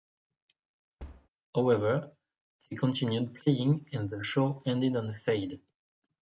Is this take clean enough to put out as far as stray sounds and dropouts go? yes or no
no